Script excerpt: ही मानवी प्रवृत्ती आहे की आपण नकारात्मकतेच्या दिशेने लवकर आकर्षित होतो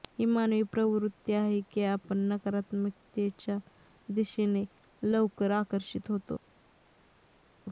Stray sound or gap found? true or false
false